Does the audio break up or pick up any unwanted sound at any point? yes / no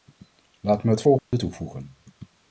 yes